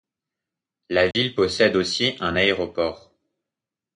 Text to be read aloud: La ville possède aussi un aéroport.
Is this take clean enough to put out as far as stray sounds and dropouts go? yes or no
no